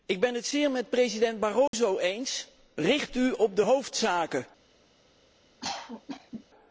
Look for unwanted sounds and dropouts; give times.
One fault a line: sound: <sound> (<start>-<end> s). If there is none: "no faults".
sound: dropout (1.7-1.7 s)
sound: cough (5.6-6.4 s)